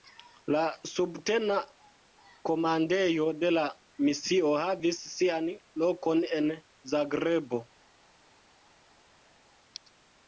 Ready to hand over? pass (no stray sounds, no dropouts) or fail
pass